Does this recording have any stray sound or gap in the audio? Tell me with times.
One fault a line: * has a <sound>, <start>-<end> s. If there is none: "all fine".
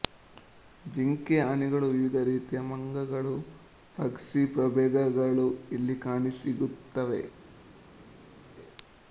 all fine